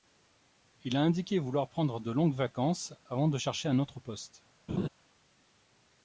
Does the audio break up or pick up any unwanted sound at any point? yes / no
yes